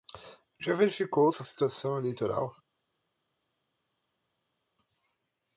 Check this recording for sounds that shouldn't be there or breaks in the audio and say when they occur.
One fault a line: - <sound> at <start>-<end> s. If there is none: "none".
none